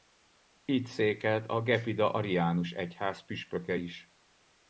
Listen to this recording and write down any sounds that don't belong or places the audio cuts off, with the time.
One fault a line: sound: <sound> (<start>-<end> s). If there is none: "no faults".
no faults